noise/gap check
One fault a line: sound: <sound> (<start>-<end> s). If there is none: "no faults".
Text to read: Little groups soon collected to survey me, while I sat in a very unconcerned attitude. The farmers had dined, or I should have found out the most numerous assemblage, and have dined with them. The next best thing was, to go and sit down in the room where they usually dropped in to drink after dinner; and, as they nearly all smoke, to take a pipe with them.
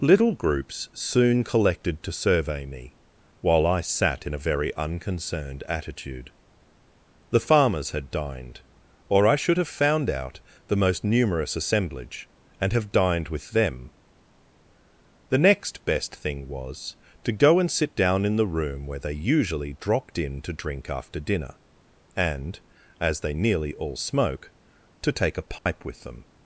sound: dropout (25.6-25.7 s)